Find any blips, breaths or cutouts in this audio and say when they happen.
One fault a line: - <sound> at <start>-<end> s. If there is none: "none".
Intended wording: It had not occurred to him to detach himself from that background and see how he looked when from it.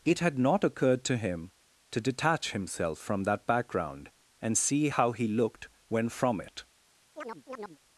- chirp at 7.2-7.8 s